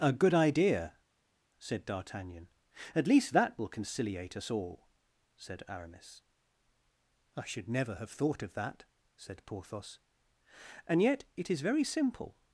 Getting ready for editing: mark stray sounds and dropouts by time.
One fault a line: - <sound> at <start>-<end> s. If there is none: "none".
none